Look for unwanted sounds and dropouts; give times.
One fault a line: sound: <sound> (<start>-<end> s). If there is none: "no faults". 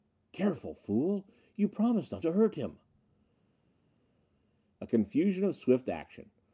no faults